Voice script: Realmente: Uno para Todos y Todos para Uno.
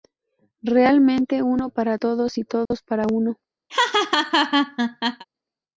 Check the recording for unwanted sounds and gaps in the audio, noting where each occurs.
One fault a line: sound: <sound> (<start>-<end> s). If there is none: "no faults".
sound: dropout (2.7-2.7 s)
sound: laugh (3.7-5.2 s)